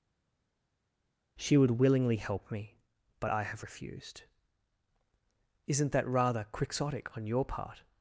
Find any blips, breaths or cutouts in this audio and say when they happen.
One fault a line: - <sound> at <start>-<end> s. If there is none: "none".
none